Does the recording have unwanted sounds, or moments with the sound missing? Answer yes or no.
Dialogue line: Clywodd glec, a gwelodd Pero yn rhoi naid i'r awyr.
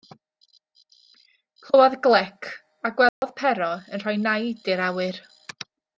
yes